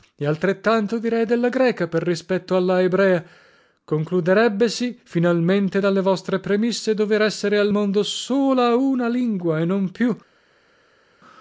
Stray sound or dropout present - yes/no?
no